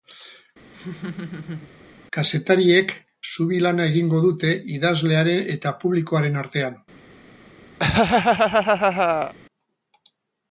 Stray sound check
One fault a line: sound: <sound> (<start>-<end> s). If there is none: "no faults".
sound: laugh (0.7-1.7 s)
sound: laugh (7.8-9.3 s)